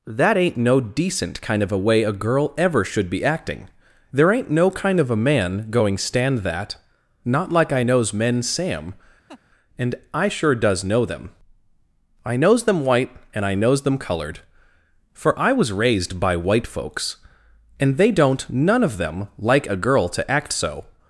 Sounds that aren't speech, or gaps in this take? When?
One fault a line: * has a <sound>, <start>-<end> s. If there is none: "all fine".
* has a laugh, 9.3-9.4 s